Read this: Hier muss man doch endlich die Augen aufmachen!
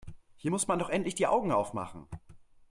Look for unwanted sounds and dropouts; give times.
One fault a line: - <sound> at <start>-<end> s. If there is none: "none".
none